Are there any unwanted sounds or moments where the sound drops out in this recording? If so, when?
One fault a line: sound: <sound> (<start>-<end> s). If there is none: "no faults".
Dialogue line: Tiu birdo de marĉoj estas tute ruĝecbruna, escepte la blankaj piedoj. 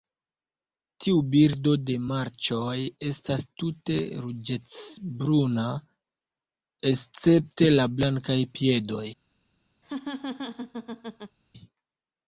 sound: laugh (9.8-11.4 s)